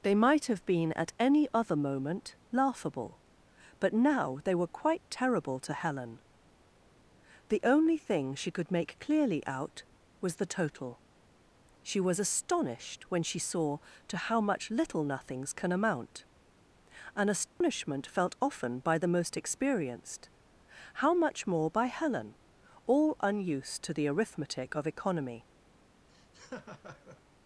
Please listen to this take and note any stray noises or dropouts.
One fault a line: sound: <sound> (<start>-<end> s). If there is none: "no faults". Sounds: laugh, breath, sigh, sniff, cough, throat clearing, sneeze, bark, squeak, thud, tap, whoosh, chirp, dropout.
sound: dropout (17.5-17.6 s)
sound: laugh (26.1-27.2 s)